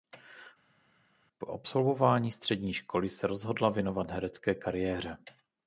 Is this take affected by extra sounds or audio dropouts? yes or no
no